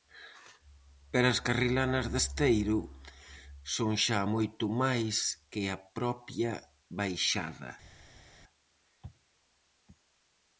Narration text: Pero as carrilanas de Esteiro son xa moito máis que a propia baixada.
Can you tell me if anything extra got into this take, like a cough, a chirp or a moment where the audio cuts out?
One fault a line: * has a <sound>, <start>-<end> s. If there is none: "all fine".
all fine